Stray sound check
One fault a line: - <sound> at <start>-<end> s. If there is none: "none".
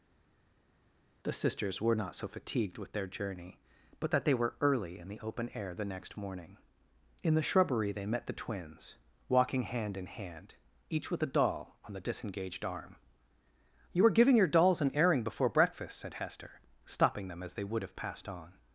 none